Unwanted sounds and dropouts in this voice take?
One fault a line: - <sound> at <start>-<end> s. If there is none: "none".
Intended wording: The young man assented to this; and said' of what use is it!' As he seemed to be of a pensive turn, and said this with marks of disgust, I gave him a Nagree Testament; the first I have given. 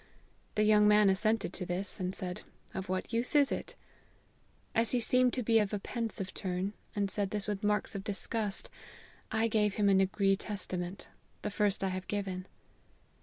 none